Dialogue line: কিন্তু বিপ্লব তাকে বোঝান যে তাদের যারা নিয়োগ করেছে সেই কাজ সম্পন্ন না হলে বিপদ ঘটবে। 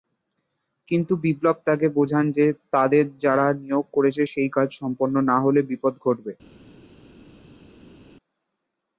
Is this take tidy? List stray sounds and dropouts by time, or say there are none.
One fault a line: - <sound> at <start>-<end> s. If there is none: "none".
none